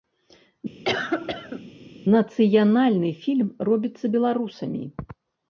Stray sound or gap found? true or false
true